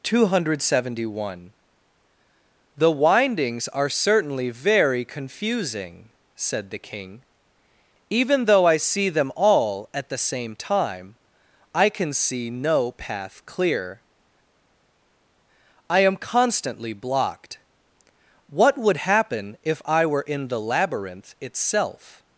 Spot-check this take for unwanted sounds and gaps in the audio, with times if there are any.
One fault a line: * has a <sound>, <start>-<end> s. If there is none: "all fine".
all fine